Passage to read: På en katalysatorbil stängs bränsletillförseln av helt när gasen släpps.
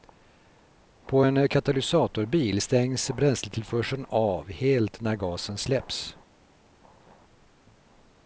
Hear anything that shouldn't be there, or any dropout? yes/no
no